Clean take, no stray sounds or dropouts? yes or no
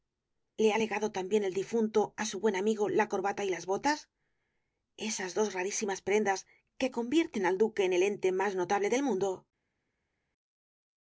yes